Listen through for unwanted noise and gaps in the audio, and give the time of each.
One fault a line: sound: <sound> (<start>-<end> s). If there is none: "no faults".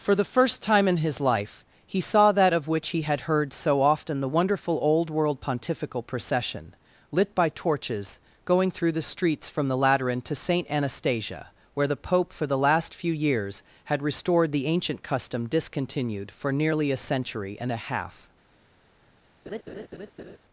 sound: laugh (19.5-20.4 s)